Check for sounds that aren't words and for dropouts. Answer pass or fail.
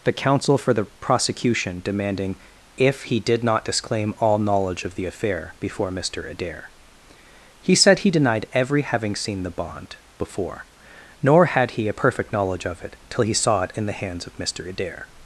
pass